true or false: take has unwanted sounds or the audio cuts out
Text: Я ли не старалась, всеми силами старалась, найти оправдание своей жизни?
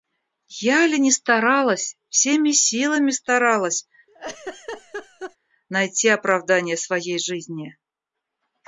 true